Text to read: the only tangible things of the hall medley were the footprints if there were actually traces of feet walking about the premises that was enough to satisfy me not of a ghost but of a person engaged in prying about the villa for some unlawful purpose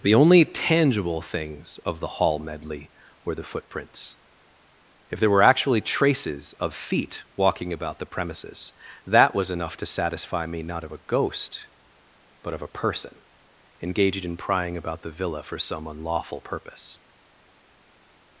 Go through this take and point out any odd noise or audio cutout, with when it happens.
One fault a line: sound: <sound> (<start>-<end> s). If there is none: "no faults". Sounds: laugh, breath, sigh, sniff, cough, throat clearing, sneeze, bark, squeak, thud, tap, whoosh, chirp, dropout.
no faults